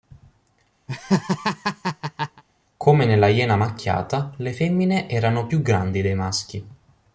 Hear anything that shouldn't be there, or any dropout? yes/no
yes